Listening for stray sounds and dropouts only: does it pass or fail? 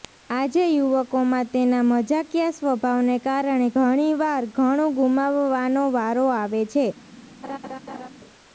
fail